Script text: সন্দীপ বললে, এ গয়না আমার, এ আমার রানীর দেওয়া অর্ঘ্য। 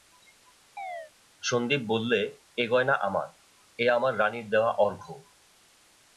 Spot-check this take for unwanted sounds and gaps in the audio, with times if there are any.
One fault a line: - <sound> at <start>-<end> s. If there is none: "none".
- chirp at 0.8-1.1 s